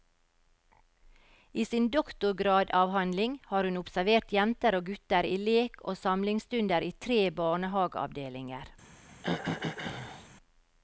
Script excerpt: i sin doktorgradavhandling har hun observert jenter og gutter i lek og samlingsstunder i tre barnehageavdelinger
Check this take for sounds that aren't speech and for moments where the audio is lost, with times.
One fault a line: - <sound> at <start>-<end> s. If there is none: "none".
- throat clearing at 9.1-10.3 s